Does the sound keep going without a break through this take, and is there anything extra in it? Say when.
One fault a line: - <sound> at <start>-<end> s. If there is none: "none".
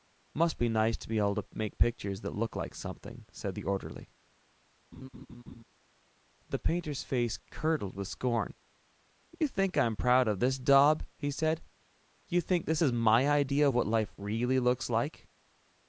- laugh at 4.9-5.6 s